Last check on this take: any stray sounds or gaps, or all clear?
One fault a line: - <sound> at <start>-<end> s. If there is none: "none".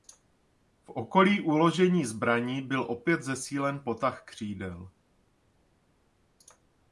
none